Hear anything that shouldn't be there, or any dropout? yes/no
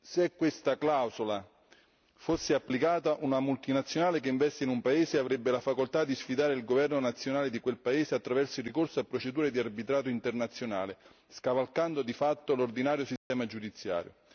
yes